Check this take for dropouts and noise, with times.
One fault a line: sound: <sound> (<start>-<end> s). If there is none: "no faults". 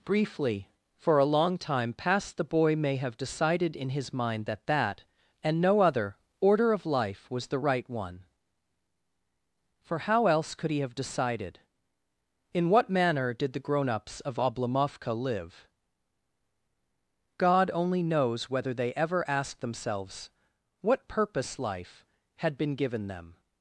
no faults